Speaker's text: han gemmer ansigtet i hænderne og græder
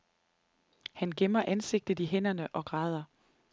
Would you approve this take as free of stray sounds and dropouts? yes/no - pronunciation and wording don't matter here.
yes